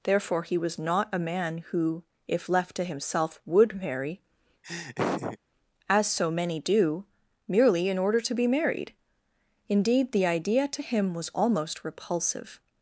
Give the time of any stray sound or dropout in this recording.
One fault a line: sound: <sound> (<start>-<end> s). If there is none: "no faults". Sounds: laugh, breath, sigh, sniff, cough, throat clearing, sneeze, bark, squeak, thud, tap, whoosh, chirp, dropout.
sound: laugh (4.6-5.4 s)